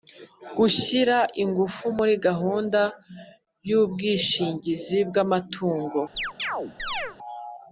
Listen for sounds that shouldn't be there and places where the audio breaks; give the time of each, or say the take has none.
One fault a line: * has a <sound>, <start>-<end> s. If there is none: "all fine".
* has a chirp, 6.1-7.2 s